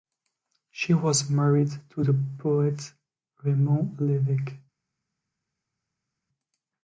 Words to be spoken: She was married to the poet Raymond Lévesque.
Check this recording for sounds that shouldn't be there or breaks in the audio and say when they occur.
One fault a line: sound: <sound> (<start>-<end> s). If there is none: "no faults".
no faults